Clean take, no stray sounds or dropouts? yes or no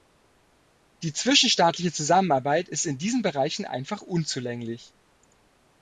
yes